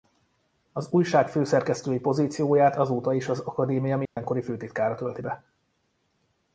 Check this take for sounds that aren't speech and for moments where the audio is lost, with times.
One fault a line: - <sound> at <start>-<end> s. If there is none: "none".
- dropout at 4.1-4.2 s